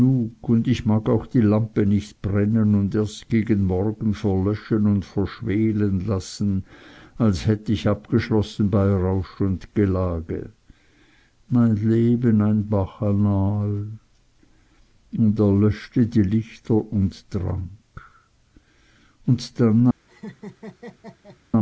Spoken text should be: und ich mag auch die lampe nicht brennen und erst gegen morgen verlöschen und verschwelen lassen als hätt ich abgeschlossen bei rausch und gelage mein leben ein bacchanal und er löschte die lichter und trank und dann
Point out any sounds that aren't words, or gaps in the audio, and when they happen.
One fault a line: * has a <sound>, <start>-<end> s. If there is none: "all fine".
* has a laugh, 20.1-21.4 s